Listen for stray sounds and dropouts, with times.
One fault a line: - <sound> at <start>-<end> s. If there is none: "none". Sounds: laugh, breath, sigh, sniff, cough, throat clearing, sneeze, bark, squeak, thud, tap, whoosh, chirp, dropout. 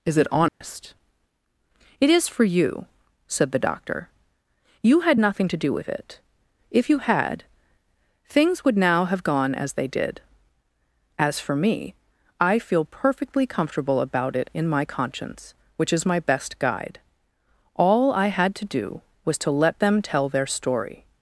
- dropout at 0.5-0.6 s